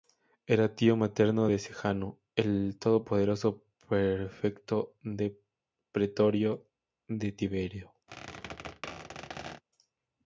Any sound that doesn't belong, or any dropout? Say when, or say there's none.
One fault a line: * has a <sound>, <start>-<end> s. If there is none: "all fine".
* has a squeak, 8.1-9.6 s